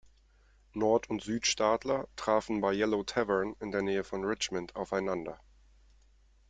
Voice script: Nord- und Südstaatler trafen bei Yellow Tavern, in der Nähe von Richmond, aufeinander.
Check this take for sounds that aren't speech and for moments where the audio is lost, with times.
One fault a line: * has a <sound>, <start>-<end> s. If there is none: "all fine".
all fine